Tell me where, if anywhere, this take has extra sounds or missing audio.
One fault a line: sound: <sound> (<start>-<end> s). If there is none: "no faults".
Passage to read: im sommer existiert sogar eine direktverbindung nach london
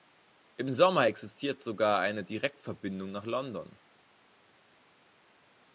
no faults